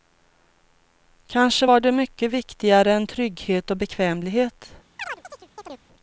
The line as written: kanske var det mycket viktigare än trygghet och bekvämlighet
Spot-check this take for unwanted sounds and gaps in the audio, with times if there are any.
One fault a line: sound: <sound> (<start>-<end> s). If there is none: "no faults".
sound: chirp (5.0-5.9 s)